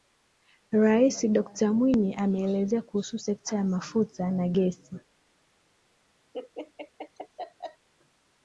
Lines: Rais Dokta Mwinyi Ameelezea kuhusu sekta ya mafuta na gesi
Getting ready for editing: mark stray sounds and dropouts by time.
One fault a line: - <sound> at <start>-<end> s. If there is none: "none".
- laugh at 6.3-7.9 s